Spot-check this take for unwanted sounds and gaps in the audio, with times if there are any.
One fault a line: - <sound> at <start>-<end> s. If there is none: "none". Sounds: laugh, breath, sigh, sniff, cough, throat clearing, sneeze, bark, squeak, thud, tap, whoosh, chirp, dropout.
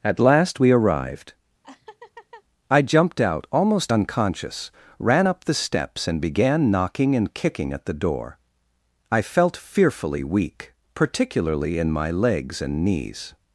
- laugh at 1.6-2.4 s